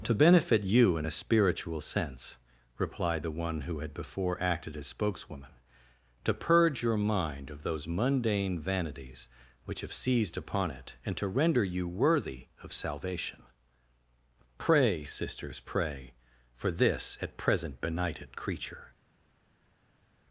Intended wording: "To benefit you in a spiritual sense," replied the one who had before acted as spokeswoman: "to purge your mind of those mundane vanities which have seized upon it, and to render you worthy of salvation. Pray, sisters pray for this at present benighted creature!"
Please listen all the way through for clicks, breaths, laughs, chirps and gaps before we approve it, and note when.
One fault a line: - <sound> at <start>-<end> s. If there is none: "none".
none